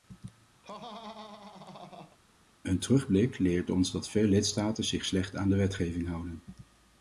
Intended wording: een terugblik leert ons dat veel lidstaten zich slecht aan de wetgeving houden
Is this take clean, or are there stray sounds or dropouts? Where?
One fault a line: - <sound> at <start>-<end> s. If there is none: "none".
- laugh at 0.6-2.2 s